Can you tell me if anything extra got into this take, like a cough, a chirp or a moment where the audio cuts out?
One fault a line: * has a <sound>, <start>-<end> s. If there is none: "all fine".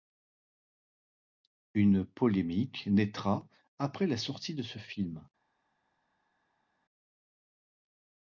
all fine